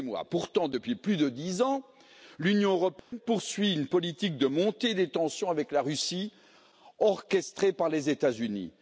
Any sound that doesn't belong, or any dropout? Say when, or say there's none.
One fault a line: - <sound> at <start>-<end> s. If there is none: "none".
- dropout at 3.0-3.1 s